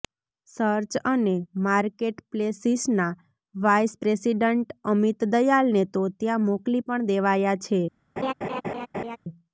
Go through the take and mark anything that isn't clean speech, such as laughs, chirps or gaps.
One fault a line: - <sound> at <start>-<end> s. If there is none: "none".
- laugh at 8.2-9.2 s